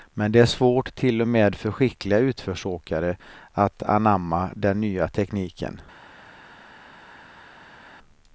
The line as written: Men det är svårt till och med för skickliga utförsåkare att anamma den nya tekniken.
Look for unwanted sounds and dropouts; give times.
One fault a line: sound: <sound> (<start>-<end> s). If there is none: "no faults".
no faults